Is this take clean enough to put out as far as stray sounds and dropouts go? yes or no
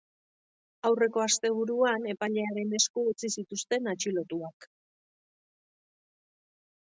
yes